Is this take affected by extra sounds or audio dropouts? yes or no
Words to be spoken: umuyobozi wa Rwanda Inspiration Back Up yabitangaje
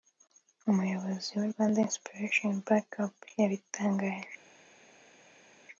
no